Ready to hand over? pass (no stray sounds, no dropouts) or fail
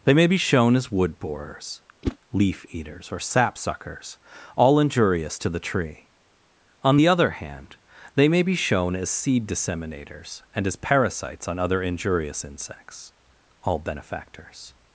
fail